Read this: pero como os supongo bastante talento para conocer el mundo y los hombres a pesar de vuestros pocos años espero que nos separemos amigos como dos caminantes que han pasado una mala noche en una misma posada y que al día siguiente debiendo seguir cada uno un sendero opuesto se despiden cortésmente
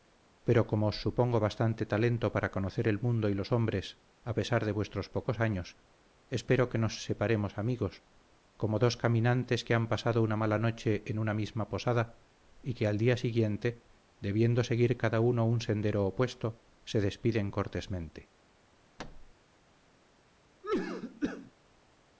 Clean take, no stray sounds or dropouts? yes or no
no